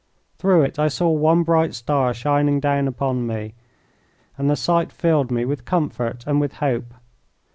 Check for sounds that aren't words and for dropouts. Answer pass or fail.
pass